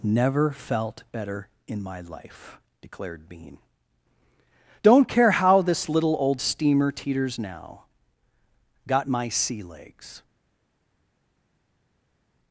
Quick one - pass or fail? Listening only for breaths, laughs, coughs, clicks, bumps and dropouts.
pass